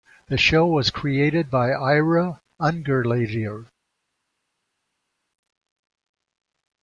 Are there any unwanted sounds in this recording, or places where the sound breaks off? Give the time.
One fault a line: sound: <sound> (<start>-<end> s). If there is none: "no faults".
no faults